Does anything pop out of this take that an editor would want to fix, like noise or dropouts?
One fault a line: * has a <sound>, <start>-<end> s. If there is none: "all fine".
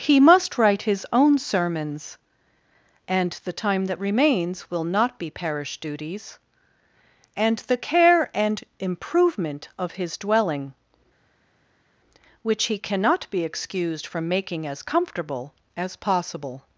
all fine